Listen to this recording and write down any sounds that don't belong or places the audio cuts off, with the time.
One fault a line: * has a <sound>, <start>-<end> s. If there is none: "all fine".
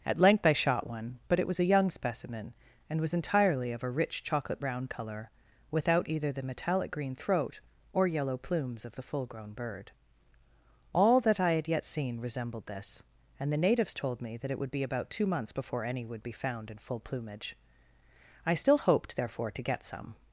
all fine